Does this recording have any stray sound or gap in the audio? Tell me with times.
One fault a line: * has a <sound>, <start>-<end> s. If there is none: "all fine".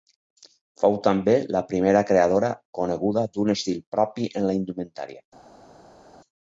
all fine